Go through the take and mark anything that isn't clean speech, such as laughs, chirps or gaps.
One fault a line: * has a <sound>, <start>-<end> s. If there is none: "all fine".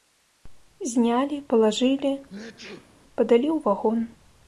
* has a sneeze, 2.3-3.0 s